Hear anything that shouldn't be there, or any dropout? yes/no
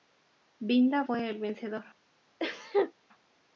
yes